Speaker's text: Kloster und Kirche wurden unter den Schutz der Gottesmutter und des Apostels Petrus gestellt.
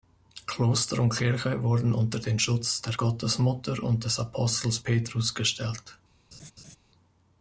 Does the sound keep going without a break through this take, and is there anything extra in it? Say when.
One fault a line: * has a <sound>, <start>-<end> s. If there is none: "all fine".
* has a laugh, 6.3-6.8 s